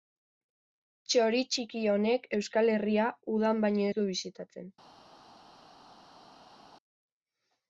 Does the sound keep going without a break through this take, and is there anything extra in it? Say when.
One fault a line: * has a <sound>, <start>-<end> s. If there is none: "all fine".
all fine